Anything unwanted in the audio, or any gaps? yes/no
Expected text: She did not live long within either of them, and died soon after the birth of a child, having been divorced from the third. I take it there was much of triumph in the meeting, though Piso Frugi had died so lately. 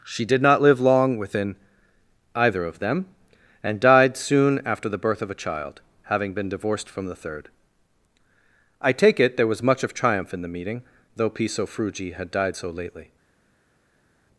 no